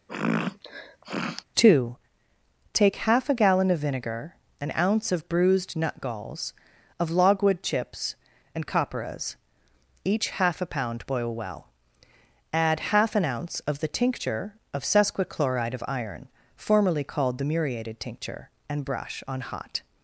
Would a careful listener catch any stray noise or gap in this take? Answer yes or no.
yes